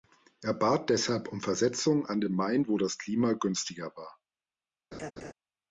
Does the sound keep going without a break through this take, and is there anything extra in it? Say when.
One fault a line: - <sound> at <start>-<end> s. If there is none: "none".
- laugh at 4.9-5.3 s